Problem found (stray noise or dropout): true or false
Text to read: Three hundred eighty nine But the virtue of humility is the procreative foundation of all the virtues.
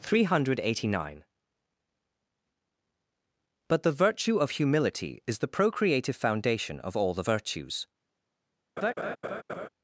true